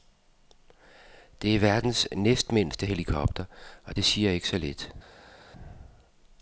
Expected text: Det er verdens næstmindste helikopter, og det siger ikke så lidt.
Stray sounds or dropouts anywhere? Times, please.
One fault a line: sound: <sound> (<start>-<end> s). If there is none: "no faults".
no faults